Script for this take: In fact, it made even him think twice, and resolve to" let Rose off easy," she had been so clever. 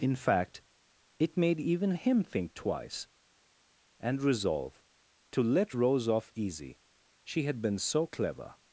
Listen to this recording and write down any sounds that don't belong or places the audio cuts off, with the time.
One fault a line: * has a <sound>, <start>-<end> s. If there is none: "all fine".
all fine